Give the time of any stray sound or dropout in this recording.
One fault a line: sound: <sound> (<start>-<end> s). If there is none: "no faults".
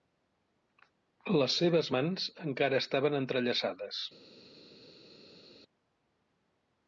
no faults